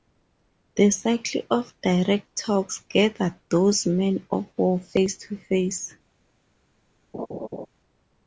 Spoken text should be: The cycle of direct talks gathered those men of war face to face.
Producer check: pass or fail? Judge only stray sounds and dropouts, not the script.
fail